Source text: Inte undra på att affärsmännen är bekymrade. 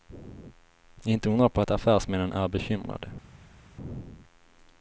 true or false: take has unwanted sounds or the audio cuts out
false